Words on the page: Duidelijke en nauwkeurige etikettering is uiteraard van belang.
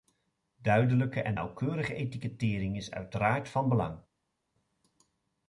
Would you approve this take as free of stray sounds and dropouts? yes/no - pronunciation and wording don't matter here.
yes